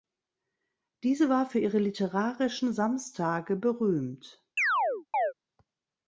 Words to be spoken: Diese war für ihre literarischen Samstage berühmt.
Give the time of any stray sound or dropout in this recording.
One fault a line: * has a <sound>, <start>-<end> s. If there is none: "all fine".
* has a chirp, 4.6-5.3 s